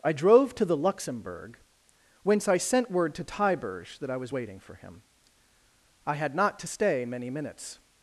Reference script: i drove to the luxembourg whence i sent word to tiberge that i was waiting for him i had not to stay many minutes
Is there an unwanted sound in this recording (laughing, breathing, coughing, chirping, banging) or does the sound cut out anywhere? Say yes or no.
no